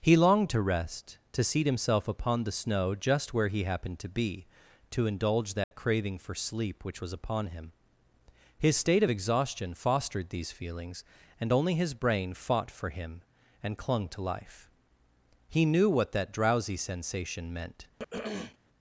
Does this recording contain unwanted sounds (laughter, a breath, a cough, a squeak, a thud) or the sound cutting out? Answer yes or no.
yes